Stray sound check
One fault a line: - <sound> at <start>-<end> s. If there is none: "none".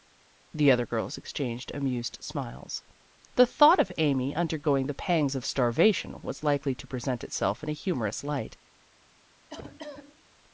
- cough at 9.5-10.2 s